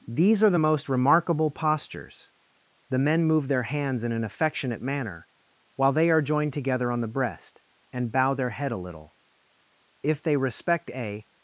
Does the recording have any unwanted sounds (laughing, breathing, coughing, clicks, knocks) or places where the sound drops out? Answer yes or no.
no